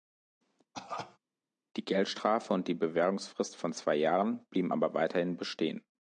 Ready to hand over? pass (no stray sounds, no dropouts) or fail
fail